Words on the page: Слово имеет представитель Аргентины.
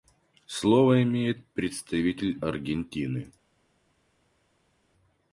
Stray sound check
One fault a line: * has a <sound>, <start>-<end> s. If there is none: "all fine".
all fine